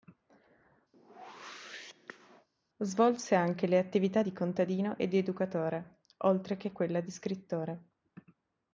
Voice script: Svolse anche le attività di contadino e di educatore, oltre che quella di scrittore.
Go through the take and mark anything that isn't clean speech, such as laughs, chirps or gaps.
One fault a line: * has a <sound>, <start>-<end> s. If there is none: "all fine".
* has a whoosh, 0.9-2.5 s